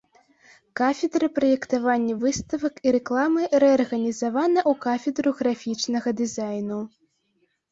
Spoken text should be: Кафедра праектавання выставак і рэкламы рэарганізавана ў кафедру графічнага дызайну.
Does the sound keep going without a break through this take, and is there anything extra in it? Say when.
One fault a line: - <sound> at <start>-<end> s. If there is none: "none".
none